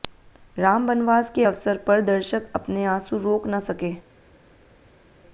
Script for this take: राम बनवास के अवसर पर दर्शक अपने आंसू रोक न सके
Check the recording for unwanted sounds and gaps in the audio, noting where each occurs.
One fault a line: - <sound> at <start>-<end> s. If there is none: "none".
none